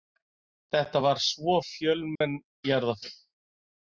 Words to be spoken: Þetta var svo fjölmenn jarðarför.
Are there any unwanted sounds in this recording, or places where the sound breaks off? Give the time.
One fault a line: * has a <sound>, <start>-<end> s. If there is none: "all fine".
* has a dropout, 2.2-2.2 s